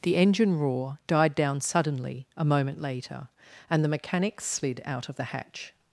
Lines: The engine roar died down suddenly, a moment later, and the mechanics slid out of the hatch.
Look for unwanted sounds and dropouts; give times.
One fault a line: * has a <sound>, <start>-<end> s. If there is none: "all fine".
all fine